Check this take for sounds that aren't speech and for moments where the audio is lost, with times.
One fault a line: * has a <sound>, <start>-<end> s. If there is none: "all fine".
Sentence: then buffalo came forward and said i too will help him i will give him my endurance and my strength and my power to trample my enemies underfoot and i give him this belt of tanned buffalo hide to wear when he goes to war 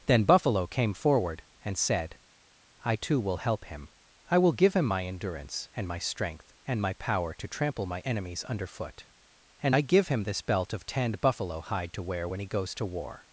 all fine